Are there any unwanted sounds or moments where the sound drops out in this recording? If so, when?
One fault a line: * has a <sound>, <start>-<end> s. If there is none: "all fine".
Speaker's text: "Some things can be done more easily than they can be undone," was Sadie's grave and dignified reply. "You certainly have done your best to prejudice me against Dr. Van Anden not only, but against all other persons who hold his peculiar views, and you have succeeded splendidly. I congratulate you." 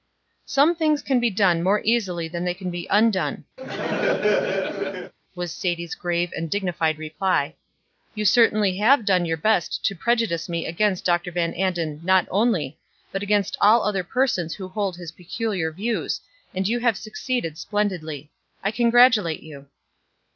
* has a laugh, 3.6-5.1 s